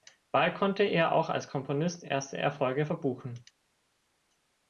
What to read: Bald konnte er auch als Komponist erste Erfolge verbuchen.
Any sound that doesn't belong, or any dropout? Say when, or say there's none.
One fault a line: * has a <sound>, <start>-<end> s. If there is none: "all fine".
all fine